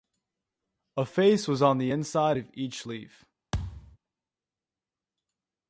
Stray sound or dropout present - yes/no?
yes